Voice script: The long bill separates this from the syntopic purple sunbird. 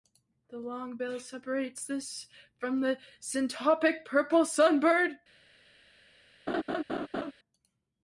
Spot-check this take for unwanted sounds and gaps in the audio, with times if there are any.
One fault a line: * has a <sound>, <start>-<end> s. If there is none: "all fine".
* has a laugh, 6.5-7.3 s